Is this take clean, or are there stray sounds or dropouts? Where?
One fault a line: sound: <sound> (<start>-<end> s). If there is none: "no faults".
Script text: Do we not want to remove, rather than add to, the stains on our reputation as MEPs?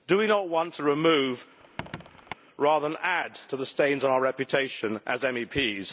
sound: squeak (1.6-2.3 s)